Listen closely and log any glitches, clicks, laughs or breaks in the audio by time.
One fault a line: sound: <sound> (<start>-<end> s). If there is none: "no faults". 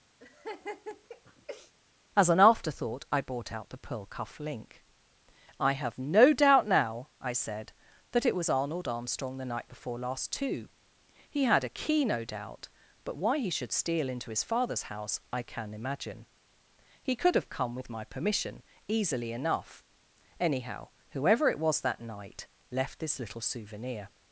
sound: laugh (0.2-1.7 s)